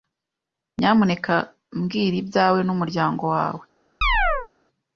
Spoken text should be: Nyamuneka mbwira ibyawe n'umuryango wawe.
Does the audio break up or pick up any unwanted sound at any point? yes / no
yes